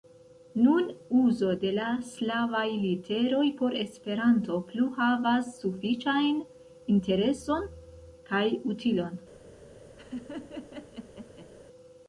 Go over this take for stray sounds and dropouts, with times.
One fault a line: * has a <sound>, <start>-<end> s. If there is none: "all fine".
* has a laugh, 10.0-11.5 s